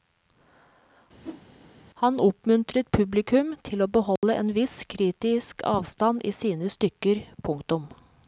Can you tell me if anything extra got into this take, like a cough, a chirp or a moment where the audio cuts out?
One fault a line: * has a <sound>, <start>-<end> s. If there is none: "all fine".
* has a whoosh, 1.2-1.4 s
* has a dropout, 4.2-4.2 s